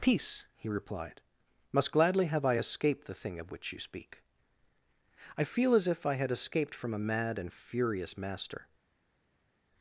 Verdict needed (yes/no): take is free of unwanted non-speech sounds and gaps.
yes